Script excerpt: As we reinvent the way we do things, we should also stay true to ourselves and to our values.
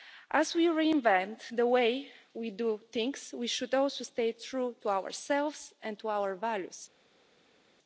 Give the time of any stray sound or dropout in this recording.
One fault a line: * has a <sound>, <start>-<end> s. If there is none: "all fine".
all fine